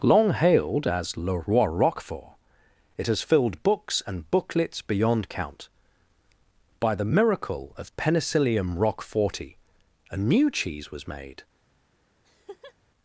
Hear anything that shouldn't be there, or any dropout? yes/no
yes